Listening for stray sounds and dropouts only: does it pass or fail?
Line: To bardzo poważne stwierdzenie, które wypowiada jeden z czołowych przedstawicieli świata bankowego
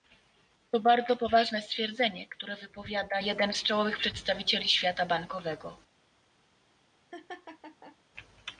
fail